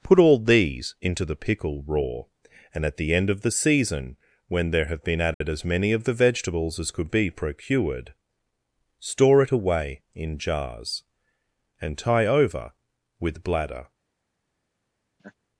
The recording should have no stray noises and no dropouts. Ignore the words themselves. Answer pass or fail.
fail